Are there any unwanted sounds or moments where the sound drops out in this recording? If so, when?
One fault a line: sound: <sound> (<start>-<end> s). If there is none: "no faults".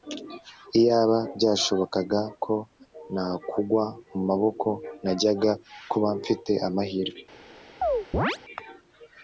sound: chirp (7.8-8.4 s)